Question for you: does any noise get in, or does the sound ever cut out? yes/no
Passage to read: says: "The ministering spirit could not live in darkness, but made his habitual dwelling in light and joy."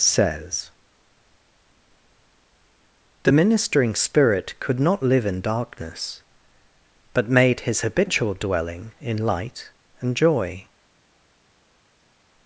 no